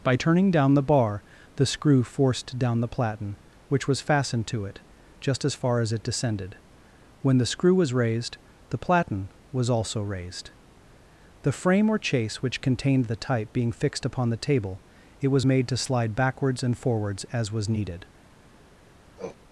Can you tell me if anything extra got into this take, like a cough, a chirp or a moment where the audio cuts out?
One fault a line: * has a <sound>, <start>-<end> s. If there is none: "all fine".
* has a sniff, 19.2-19.4 s